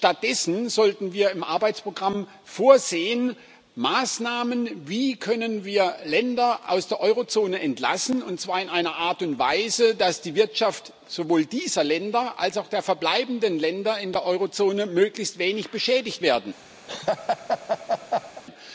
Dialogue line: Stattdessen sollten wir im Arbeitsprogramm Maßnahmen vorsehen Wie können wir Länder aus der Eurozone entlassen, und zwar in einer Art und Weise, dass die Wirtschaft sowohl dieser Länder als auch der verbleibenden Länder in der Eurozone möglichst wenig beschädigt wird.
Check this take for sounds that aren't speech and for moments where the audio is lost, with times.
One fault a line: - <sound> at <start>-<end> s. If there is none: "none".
- laugh at 16.9-18.4 s